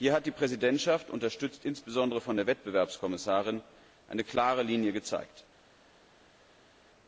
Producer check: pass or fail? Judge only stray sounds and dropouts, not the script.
pass